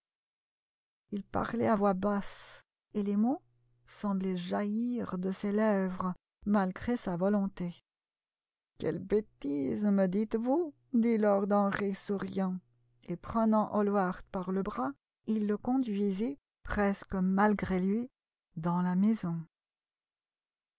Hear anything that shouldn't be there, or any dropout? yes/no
no